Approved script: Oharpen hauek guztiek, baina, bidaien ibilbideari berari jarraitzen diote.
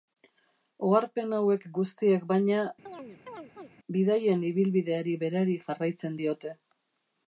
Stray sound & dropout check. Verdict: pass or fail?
fail